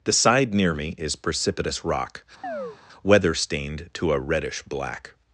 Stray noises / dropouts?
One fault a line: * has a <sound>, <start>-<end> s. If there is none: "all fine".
* has a chirp, 2.4-2.8 s